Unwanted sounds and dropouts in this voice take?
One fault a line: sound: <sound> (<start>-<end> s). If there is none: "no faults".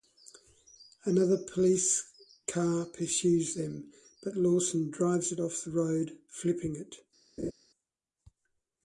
sound: laugh (7.4-7.5 s)